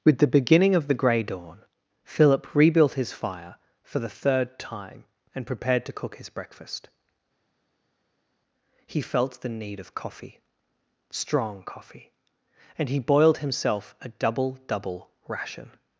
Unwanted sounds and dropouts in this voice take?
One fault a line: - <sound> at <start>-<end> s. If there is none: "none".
none